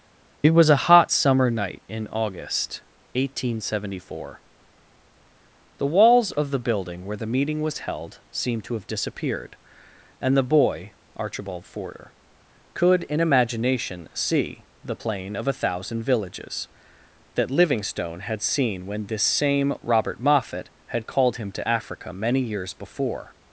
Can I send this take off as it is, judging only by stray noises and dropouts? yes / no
yes